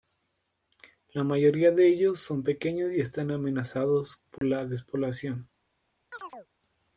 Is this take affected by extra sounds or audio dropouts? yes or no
yes